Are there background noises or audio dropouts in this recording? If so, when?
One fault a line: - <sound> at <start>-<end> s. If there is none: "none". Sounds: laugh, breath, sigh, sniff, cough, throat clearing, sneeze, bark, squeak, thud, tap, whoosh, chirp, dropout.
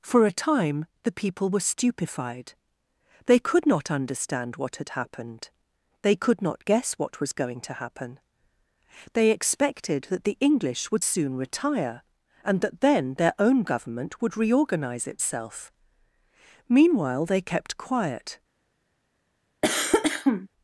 - cough at 19.6-20.5 s